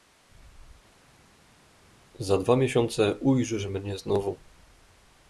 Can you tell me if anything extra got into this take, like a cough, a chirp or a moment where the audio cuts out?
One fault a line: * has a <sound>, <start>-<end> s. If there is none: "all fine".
all fine